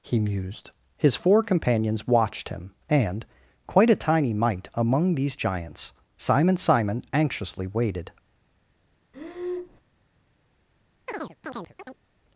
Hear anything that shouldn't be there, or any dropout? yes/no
yes